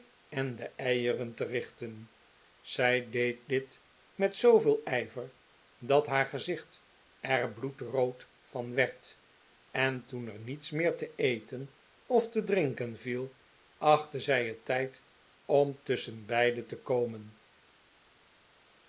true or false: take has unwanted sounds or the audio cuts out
false